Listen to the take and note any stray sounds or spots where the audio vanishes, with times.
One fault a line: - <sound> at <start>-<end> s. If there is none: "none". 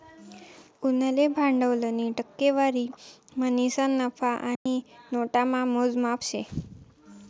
- dropout at 4.6-4.7 s